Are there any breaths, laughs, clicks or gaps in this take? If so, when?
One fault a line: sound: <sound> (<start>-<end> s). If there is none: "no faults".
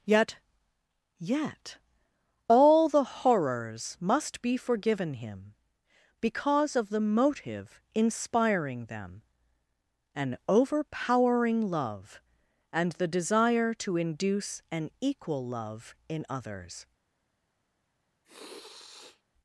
sound: sniff (18.2-19.2 s)